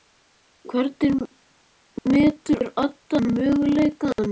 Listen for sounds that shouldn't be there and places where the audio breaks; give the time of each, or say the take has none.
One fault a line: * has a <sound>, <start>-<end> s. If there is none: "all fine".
* has a dropout, 4.1-4.2 s